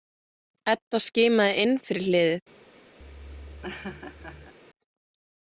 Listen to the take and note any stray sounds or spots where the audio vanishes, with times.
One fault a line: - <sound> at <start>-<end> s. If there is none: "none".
- laugh at 3.0-4.5 s